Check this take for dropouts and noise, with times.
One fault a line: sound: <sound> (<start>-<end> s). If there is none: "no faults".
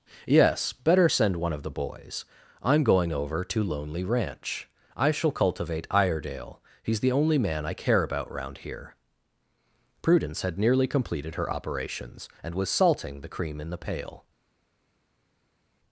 no faults